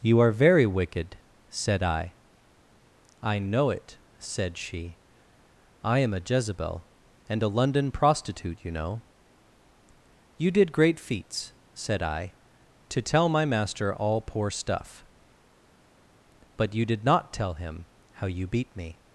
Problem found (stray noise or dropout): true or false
false